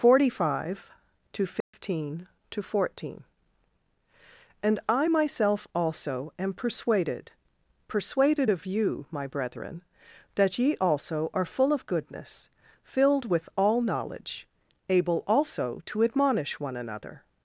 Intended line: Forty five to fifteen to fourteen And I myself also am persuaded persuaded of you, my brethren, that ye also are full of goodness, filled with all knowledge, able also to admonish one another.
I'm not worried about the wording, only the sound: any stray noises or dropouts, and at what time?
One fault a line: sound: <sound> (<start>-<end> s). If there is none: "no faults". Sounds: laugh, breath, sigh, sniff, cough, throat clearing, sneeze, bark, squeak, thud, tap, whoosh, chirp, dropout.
sound: dropout (1.6-1.7 s)